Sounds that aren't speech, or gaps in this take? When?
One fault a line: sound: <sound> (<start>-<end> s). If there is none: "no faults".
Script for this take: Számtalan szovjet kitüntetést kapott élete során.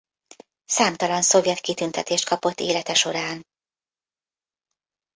no faults